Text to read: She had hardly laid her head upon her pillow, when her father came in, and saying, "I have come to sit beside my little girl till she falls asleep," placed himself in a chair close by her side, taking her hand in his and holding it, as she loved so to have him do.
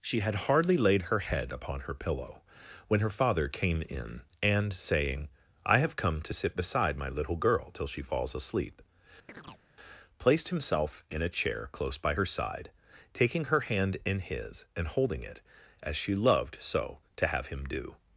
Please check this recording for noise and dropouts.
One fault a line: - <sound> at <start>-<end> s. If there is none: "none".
- chirp at 9.3-9.6 s